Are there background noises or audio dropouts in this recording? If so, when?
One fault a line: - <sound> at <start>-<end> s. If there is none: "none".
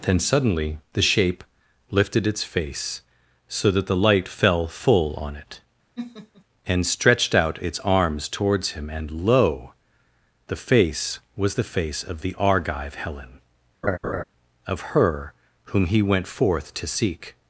- laugh at 6.0-6.4 s
- laugh at 13.8-14.2 s